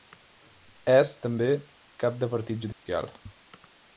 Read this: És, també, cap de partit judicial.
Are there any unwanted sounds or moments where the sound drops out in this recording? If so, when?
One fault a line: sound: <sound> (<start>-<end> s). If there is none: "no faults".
sound: dropout (2.7-2.9 s)